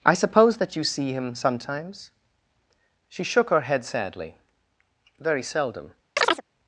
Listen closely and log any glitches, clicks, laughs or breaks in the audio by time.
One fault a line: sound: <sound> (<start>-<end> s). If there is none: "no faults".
sound: chirp (6.2-6.4 s)